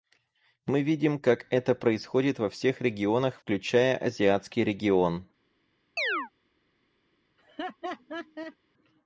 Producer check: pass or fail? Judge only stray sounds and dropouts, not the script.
fail